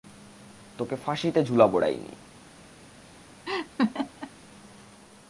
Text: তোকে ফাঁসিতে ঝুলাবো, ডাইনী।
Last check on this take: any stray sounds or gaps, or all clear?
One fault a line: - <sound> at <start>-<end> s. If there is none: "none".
- laugh at 3.5-4.3 s